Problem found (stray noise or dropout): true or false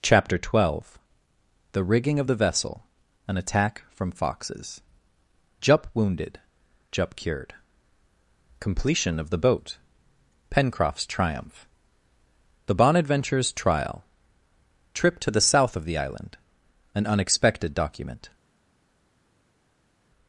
false